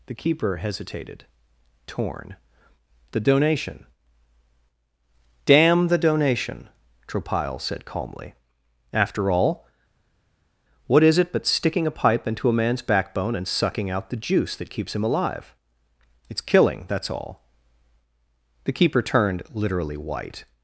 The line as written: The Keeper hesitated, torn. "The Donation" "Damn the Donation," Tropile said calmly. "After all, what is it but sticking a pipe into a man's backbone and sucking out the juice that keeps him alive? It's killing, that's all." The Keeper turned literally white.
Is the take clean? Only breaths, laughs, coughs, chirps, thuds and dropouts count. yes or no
yes